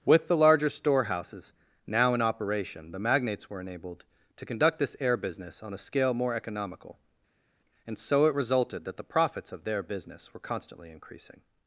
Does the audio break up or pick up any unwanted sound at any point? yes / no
no